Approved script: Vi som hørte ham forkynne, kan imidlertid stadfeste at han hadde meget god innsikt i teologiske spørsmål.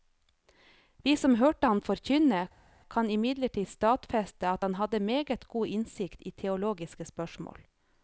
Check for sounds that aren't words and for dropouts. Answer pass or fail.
pass